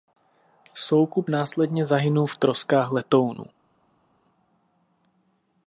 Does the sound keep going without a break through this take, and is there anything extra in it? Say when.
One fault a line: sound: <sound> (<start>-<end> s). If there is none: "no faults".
no faults